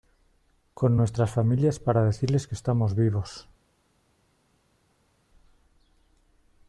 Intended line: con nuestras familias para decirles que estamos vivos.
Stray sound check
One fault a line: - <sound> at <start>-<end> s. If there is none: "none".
none